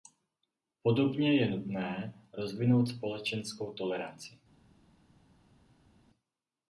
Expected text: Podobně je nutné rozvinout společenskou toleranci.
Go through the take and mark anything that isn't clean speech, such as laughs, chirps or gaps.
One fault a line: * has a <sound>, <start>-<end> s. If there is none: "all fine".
all fine